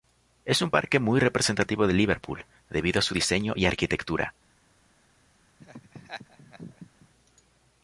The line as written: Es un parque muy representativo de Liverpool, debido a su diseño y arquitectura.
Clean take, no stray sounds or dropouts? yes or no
no